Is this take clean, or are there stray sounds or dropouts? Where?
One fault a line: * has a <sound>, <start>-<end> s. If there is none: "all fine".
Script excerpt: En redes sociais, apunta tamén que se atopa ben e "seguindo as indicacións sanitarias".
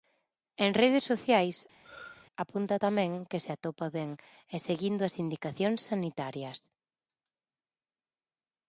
* has a throat clearing, 1.8-2.3 s